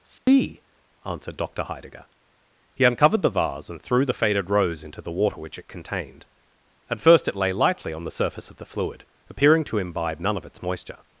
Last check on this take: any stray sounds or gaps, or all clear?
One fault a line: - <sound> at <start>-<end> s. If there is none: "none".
- dropout at 0.2-0.3 s